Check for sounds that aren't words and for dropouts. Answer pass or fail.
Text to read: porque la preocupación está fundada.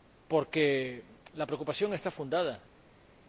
pass